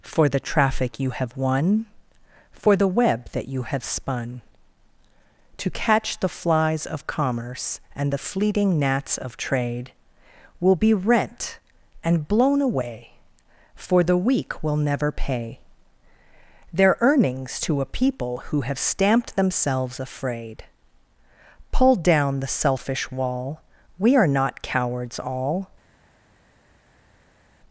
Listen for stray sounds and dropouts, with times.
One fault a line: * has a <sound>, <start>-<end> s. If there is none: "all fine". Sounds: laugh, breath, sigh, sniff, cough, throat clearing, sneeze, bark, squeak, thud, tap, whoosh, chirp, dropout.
all fine